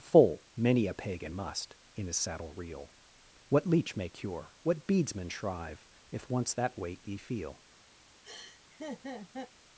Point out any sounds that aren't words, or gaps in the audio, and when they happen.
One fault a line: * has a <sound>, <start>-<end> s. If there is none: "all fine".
* has a laugh, 8.2-9.5 s